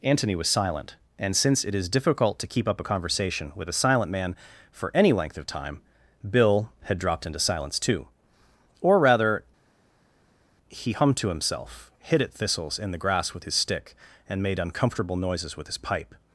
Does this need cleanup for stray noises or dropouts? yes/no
no